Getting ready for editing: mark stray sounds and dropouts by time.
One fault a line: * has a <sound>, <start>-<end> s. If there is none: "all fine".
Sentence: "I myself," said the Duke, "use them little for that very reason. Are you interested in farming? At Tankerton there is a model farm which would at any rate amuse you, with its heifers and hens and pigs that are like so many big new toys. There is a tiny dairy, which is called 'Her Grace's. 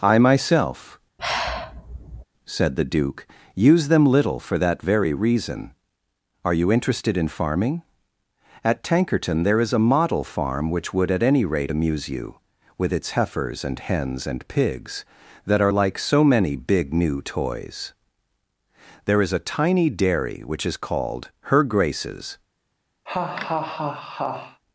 * has a sigh, 1.2-2.2 s
* has a laugh, 23.1-24.6 s